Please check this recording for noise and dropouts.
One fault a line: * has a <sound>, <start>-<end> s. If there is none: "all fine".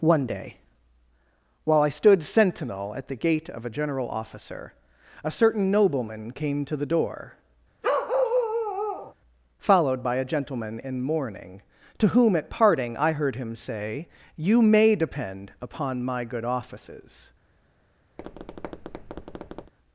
* has a bark, 7.8-9.1 s
* has a tap, 18.2-19.7 s